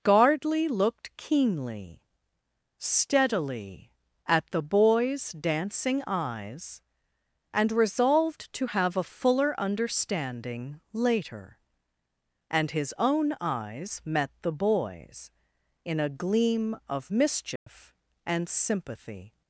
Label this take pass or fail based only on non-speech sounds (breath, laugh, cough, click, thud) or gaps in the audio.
fail